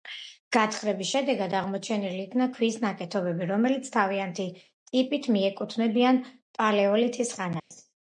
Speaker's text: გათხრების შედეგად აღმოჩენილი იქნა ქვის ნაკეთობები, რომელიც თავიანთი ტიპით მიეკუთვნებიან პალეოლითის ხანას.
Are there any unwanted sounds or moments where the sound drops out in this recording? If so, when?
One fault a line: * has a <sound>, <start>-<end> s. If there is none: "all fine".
* has a dropout, 7.6-7.7 s